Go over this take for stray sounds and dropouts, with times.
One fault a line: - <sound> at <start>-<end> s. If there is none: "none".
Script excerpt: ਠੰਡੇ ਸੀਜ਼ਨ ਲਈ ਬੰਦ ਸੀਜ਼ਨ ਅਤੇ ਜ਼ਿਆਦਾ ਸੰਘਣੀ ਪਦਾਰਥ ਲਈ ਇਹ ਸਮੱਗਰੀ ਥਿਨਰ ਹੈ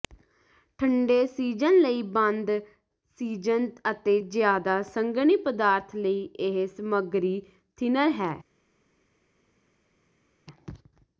none